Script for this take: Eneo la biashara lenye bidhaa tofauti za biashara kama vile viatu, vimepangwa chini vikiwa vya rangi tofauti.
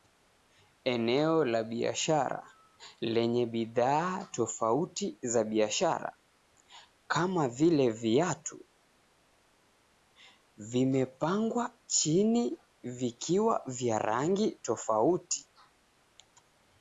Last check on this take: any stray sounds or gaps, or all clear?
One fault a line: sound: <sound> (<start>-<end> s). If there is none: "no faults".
no faults